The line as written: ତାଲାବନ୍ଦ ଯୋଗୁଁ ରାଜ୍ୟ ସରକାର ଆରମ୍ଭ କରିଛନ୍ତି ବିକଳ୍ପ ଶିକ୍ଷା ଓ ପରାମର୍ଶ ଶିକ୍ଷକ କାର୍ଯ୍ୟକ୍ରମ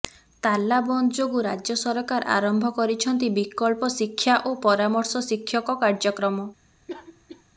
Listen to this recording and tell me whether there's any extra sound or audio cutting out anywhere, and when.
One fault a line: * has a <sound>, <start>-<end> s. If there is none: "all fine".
* has a cough, 6.9-7.4 s